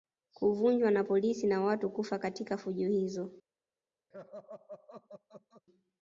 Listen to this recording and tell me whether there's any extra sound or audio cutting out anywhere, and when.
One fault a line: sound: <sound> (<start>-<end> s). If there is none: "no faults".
sound: laugh (4.1-5.6 s)